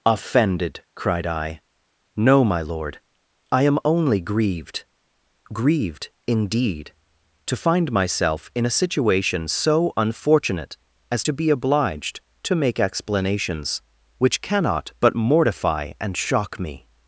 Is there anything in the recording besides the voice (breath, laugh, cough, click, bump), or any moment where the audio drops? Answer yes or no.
no